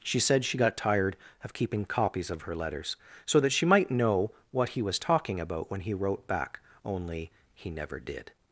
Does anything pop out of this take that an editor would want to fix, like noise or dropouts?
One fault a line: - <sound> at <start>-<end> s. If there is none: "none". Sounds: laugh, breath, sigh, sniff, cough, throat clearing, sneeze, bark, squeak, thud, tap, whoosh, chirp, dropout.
none